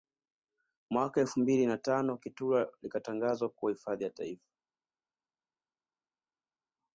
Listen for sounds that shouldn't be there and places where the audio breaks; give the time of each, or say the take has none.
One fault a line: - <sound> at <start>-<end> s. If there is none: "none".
none